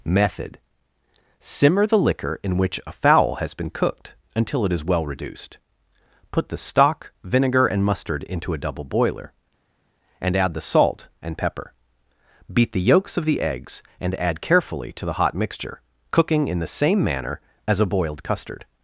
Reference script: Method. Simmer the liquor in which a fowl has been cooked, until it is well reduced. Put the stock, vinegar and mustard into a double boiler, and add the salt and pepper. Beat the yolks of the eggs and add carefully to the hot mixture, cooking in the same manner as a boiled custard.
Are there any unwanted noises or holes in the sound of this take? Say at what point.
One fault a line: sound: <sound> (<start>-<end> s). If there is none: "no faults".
no faults